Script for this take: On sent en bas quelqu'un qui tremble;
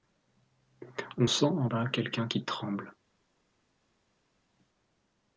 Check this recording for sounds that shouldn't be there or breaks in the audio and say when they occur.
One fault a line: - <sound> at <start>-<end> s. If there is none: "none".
none